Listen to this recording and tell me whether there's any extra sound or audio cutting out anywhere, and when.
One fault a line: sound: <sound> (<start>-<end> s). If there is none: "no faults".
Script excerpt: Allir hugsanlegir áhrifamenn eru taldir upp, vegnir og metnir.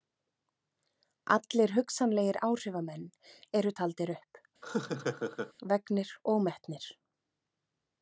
sound: laugh (4.6-5.5 s)